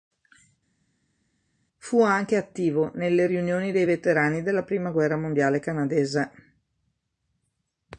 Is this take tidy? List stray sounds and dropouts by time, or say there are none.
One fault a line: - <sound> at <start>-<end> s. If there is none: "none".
none